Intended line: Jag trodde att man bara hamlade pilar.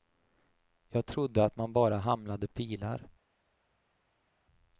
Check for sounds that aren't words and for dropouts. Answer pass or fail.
pass